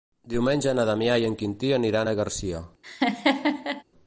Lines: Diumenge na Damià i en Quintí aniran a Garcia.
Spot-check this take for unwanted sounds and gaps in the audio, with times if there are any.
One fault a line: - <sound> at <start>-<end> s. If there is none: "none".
- laugh at 2.8-3.8 s